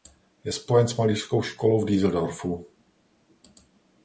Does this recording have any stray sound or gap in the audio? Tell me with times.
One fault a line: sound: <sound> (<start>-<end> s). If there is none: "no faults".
no faults